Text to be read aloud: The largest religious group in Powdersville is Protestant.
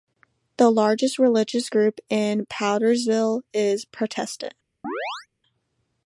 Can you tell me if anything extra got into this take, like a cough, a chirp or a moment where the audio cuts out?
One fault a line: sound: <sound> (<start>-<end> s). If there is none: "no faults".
sound: chirp (4.8-5.3 s)